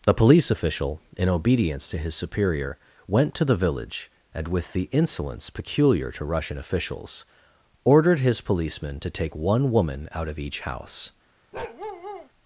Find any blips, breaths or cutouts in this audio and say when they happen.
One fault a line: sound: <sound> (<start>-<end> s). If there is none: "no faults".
sound: bark (11.5-12.3 s)